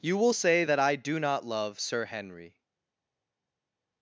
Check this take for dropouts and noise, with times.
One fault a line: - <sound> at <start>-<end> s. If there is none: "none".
none